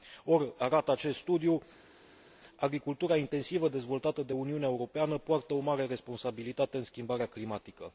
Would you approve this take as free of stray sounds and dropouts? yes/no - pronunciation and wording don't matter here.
yes